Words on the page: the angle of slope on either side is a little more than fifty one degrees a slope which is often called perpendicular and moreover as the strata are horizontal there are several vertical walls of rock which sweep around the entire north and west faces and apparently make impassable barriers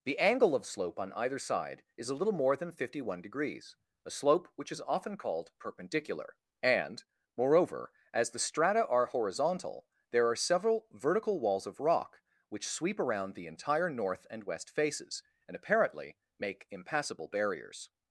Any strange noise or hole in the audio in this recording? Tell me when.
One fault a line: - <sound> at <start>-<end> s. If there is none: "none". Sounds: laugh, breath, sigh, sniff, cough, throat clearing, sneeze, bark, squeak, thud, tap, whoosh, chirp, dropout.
none